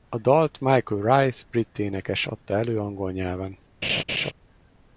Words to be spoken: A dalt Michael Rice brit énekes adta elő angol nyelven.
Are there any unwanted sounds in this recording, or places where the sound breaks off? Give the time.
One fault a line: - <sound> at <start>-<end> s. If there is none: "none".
- laugh at 3.8-4.3 s